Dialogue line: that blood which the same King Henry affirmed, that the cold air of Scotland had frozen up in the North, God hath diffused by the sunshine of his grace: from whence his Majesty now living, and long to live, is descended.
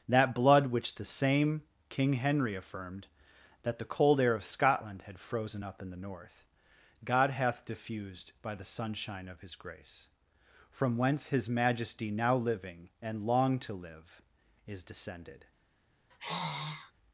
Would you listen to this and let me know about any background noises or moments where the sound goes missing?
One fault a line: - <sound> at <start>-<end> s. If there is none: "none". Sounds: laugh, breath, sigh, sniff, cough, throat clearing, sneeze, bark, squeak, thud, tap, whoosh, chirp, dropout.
- sigh at 16.1-16.9 s